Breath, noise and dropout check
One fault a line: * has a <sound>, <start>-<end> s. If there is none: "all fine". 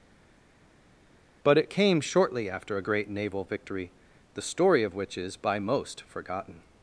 all fine